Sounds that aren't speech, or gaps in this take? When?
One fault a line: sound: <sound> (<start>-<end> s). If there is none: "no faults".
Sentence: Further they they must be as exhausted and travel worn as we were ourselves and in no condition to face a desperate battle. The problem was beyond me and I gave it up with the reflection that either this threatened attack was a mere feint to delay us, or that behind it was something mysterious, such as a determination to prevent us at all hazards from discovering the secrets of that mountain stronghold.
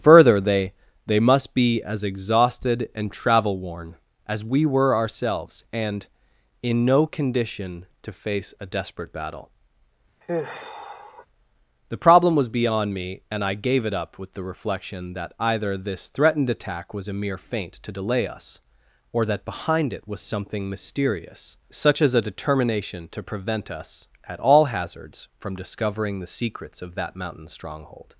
sound: sigh (10.2-11.3 s)